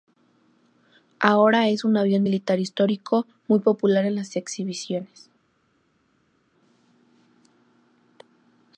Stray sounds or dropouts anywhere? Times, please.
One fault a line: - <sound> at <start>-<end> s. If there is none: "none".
none